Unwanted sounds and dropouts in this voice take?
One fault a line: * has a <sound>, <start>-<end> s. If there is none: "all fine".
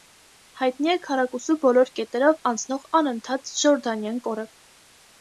all fine